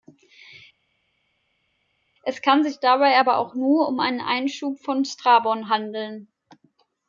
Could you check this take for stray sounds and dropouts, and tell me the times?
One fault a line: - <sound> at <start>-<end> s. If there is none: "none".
none